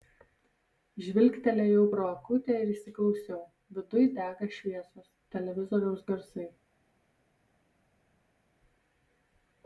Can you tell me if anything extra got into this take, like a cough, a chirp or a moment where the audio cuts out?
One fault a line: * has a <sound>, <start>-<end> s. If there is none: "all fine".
all fine